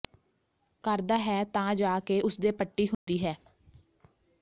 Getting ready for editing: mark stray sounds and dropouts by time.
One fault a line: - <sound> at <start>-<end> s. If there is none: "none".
- dropout at 2.9-3.1 s